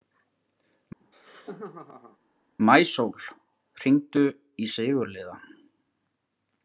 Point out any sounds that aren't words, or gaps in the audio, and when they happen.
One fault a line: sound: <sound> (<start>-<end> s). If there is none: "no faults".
sound: laugh (1.0-2.2 s)